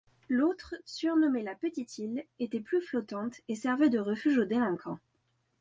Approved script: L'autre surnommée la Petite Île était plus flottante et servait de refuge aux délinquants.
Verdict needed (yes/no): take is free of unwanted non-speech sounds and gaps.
yes